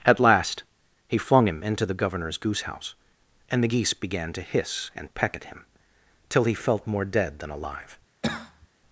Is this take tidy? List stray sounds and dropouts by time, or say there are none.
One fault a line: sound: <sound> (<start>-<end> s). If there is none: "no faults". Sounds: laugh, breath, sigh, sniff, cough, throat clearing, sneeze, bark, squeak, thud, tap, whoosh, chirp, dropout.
sound: cough (8.2-8.7 s)